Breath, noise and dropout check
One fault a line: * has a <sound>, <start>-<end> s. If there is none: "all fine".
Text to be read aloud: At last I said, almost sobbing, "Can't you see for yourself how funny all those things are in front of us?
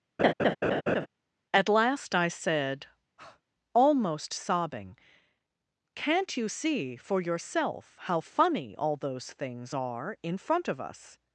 * has a laugh, 0.2-1.1 s
* has a breath, 3.2-3.4 s